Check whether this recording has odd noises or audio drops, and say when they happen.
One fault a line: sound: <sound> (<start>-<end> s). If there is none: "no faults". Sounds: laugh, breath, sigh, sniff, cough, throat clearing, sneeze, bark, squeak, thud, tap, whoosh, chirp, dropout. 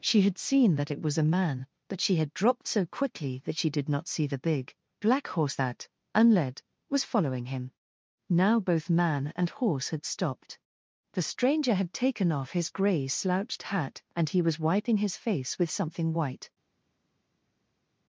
no faults